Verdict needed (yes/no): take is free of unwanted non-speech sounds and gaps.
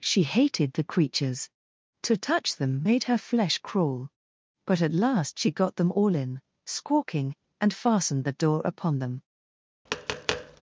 no